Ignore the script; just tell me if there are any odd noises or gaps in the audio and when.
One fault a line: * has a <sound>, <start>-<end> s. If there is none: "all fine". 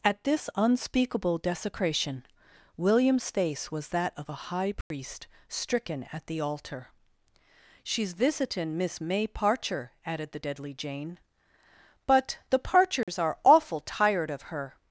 * has a dropout, 4.8-4.9 s
* has a dropout, 13.0-13.1 s